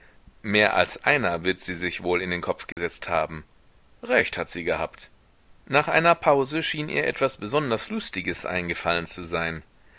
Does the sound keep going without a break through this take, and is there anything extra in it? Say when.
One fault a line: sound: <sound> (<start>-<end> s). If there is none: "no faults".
sound: dropout (2.7-2.8 s)